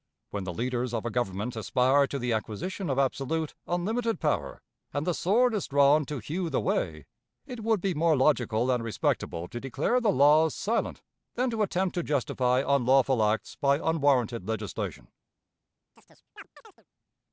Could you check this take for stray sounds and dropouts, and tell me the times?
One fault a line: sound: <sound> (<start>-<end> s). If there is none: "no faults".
sound: chirp (16.0-16.9 s)